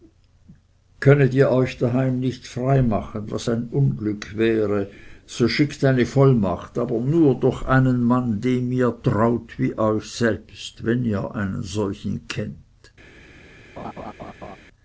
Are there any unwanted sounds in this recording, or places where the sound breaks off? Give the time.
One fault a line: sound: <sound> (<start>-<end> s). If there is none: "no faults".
sound: laugh (13.8-14.6 s)